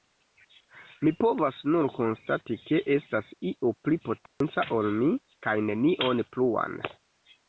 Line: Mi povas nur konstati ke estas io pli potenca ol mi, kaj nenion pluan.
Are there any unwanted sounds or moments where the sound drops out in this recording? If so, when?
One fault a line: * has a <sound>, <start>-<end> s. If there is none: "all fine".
* has a dropout, 4.3-4.4 s